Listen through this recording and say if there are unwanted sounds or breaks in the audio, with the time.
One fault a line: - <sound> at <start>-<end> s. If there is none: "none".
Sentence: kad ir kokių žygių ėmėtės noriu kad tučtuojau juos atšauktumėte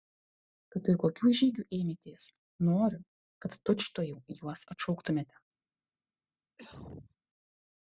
- cough at 6.6-7.2 s